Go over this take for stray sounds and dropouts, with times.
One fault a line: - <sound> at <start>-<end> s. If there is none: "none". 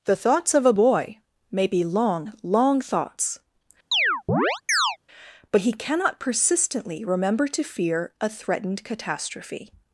- chirp at 3.9-5.0 s